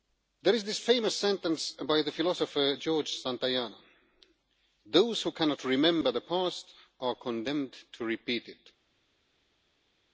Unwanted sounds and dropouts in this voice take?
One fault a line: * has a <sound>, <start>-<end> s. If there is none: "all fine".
all fine